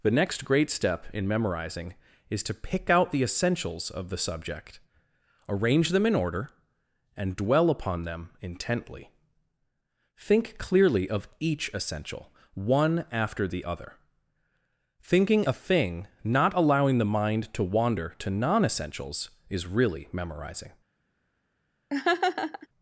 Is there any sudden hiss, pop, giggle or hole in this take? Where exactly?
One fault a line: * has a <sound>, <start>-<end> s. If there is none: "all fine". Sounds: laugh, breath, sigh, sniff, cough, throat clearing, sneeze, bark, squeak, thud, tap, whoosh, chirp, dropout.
* has a laugh, 21.9-22.7 s